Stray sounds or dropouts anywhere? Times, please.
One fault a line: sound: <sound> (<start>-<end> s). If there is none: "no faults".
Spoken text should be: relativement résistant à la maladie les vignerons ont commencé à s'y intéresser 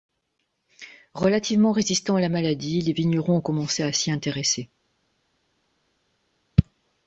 no faults